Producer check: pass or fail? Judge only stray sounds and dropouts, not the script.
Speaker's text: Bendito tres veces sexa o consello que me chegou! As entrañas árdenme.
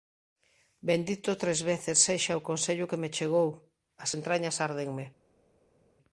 pass